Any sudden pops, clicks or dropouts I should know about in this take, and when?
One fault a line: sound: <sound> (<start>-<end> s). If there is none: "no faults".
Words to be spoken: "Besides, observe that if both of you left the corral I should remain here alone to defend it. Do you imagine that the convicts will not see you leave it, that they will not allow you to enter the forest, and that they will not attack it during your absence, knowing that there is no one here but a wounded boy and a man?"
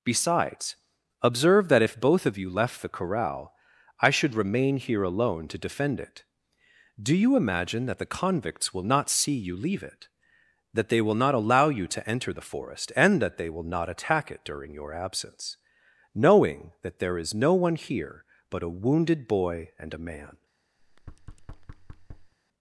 sound: thud (20.8-22.3 s)